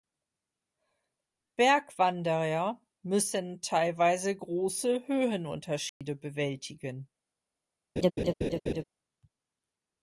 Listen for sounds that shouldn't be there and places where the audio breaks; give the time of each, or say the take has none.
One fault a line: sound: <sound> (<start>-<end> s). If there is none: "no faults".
sound: dropout (5.9-6.0 s)
sound: laugh (8.0-8.8 s)